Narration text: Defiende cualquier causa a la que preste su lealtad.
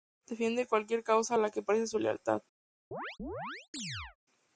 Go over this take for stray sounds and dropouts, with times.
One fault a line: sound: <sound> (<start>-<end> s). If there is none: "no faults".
sound: chirp (2.9-4.2 s)